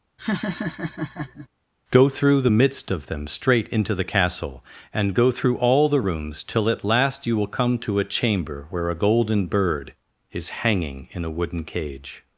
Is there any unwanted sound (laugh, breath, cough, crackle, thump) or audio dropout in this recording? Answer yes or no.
yes